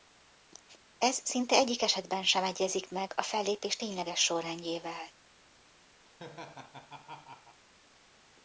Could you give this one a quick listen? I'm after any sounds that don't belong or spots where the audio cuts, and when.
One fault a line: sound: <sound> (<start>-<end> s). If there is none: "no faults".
sound: laugh (6.1-7.6 s)